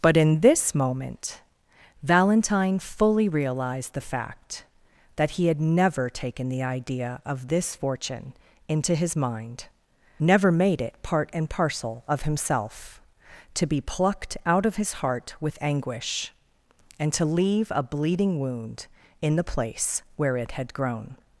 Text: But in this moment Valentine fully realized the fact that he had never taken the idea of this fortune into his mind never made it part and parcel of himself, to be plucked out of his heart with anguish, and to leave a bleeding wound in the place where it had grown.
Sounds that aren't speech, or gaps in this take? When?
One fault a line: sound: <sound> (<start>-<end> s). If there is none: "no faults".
no faults